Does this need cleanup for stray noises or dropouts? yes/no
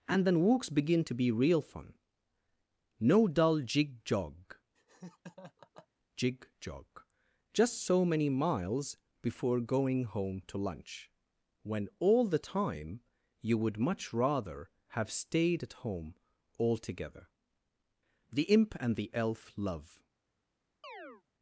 yes